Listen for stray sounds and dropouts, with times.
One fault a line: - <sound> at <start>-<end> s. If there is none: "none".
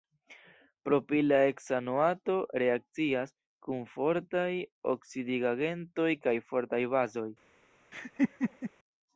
- laugh at 7.9-8.7 s